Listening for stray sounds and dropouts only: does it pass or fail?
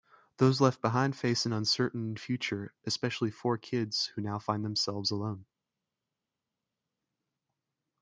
pass